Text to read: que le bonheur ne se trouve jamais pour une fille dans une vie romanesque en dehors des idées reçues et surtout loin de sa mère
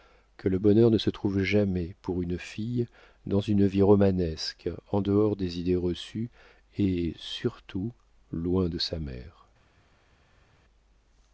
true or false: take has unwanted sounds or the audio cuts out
false